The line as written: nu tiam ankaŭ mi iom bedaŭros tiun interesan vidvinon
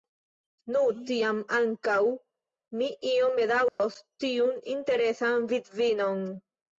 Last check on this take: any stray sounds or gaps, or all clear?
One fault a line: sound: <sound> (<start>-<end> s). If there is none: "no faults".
sound: dropout (3.7-3.8 s)